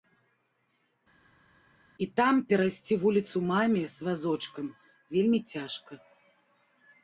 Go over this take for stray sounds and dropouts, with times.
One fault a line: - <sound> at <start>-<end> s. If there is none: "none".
none